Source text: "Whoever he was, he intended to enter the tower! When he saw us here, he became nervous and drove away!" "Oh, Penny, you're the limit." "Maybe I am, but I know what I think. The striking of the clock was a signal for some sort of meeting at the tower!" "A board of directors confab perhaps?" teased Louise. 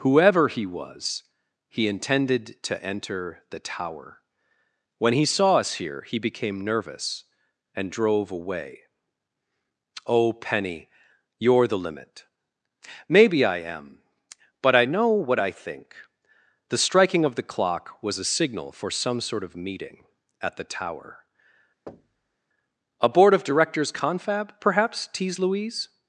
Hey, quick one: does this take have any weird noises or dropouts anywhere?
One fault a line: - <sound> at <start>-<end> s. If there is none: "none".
- thud at 21.9-22.4 s